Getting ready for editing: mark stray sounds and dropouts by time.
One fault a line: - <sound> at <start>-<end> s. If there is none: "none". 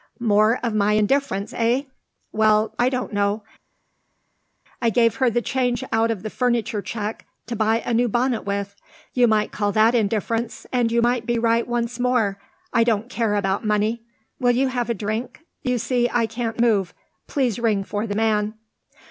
none